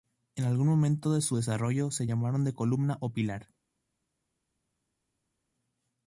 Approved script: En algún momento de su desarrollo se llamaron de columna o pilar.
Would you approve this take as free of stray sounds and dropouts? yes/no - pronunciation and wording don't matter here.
yes